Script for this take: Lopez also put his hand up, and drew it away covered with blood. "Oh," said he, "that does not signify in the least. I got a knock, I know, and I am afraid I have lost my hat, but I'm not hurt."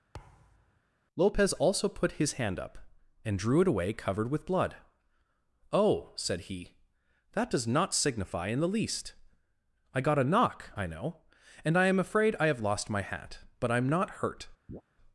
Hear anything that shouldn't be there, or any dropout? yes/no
yes